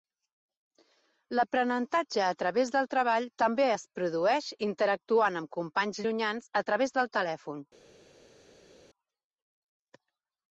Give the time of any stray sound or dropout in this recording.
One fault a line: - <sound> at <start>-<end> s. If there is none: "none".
none